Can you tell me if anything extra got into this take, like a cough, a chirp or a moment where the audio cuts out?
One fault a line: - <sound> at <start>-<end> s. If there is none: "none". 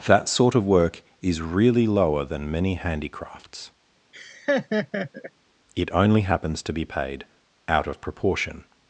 - laugh at 4.1-5.3 s